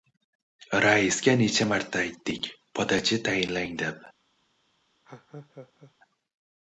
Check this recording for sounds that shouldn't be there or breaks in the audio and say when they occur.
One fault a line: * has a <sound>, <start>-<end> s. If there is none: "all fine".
* has a laugh, 5.0-5.9 s